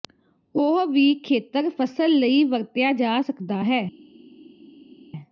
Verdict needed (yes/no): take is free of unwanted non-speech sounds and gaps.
yes